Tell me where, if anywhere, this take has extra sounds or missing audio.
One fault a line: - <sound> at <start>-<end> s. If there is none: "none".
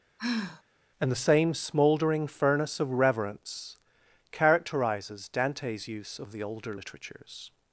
- sigh at 0.2-0.6 s